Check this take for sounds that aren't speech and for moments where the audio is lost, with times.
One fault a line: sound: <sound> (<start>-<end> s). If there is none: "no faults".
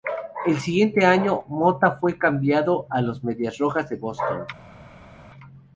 no faults